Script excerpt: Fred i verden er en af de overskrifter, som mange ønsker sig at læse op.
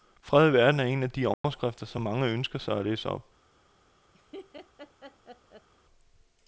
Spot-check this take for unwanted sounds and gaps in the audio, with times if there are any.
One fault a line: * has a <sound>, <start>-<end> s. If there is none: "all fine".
* has a dropout, 1.3-1.4 s
* has a laugh, 4.1-5.7 s